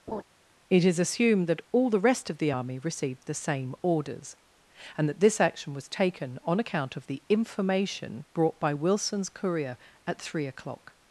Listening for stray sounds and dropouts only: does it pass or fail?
fail